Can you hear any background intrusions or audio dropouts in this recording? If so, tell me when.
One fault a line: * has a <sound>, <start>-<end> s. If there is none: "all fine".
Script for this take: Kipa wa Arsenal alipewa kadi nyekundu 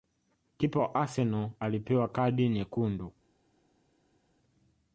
all fine